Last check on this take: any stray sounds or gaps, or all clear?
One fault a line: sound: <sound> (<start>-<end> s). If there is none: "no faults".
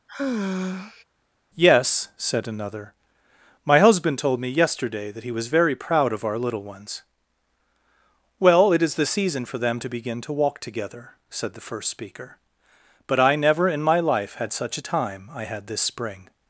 sound: sigh (0.1-1.0 s)